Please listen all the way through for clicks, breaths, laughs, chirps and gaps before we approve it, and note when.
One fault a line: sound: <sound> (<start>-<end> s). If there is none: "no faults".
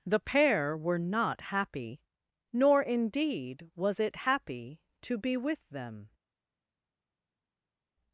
no faults